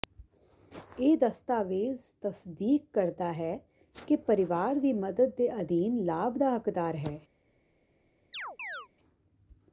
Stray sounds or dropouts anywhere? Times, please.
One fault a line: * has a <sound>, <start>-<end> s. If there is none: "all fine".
* has a chirp, 8.3-8.9 s